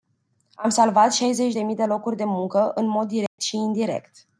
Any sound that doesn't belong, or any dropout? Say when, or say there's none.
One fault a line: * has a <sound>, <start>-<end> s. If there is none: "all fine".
* has a dropout, 3.3-3.4 s